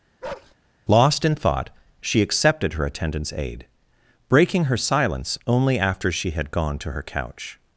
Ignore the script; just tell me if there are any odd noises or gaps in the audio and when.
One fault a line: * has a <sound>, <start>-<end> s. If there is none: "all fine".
* has a bark, 0.2-0.5 s